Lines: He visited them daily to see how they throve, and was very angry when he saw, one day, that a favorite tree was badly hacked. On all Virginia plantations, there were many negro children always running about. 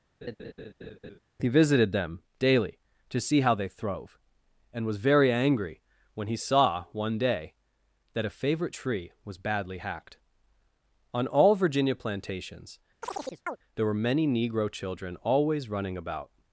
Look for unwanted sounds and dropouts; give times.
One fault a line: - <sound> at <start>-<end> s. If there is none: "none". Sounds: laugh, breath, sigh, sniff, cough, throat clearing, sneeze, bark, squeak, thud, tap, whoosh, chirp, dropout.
- laugh at 0.2-1.2 s
- chirp at 13.0-13.6 s